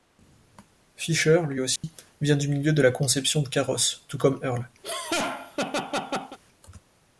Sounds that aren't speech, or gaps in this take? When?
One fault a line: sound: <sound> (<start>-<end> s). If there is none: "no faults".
sound: dropout (1.8-1.8 s)
sound: laugh (4.8-6.4 s)